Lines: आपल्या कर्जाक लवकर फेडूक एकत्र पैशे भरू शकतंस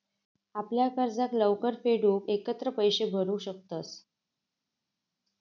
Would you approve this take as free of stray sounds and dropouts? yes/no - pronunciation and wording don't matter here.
yes